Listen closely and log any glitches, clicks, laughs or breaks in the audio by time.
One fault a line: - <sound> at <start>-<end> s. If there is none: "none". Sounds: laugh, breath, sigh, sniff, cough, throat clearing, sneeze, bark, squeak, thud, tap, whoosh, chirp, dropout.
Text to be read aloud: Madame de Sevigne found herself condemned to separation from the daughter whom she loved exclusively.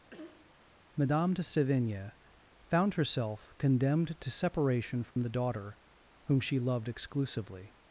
- cough at 0.1-0.6 s
- dropout at 5.1-5.2 s